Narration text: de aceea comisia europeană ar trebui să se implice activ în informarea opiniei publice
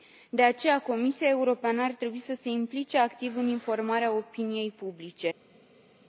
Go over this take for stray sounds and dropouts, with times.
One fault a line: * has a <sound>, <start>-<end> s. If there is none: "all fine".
all fine